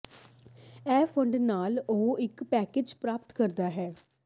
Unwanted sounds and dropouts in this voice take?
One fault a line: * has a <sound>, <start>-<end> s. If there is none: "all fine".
all fine